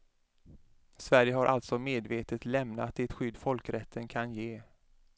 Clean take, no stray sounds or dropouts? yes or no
yes